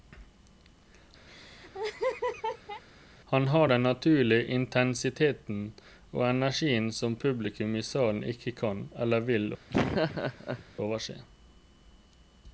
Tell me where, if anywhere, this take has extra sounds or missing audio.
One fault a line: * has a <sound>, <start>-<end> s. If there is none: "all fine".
* has a laugh, 1.3-2.8 s
* has a laugh, 9.7-10.6 s